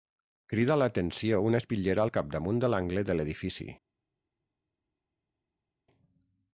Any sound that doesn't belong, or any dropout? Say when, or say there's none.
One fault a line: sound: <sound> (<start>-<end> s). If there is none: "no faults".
no faults